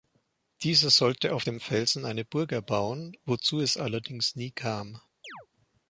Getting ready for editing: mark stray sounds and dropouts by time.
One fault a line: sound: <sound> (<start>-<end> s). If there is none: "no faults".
sound: chirp (5.2-5.5 s)